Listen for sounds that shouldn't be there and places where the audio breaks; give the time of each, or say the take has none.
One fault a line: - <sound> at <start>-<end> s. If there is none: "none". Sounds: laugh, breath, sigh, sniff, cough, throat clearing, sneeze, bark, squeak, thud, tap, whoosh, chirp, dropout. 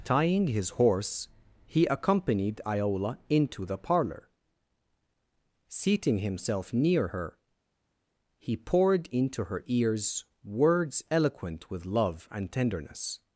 none